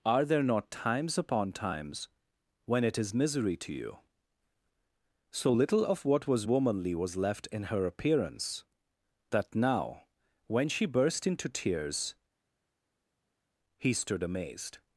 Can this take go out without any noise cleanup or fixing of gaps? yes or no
yes